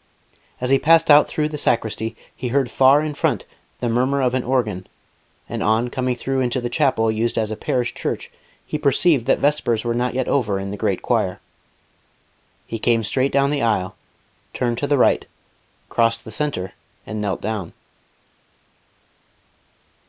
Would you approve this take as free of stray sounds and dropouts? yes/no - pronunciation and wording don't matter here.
yes